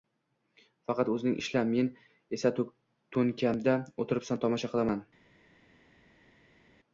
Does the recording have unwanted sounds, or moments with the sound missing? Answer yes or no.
no